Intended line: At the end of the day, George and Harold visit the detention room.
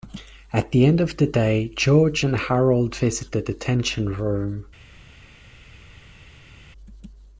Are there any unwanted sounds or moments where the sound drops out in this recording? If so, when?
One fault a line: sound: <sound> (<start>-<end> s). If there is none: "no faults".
no faults